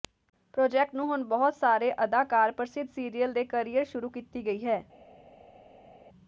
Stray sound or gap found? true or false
false